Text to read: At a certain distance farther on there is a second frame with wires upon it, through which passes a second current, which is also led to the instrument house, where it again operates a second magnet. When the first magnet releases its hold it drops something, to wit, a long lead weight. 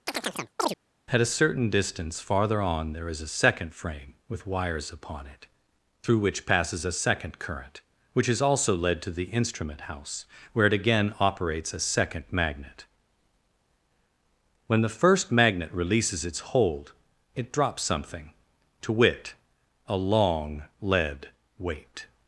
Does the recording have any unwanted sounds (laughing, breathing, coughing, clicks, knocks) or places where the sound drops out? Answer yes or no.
yes